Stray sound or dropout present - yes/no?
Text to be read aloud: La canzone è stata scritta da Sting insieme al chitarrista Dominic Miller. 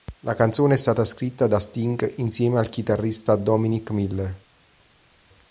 no